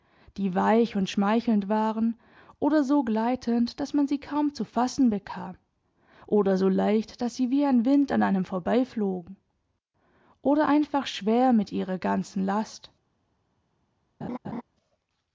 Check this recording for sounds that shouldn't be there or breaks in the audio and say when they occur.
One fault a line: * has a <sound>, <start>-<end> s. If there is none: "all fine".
* has a laugh, 14.2-14.6 s